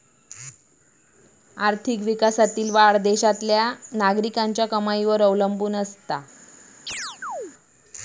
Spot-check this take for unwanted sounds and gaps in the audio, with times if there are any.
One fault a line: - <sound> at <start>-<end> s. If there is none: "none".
- chirp at 6.9-7.5 s